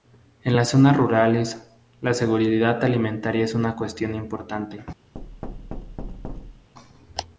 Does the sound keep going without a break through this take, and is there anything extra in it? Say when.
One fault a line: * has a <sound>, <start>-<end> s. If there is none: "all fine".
* has a thud, 5.1-6.7 s